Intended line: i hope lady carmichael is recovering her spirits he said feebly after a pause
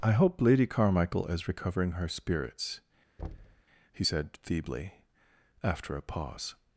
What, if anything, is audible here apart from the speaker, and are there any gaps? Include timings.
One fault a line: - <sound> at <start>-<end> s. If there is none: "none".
- thud at 3.2-3.6 s